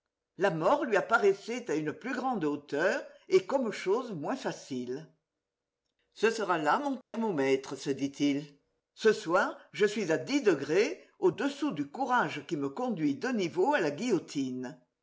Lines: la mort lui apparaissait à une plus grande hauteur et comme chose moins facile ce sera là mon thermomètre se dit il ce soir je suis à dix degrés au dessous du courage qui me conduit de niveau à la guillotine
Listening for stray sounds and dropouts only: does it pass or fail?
fail